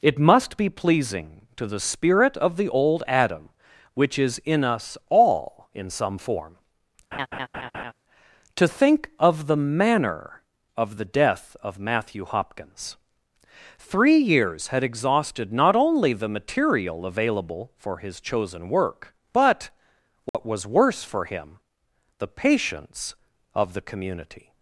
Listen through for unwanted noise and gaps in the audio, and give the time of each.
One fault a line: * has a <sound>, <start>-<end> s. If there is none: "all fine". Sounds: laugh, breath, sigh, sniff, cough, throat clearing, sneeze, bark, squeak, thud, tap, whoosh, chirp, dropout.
* has a laugh, 7.1-7.9 s
* has a dropout, 20.3-20.3 s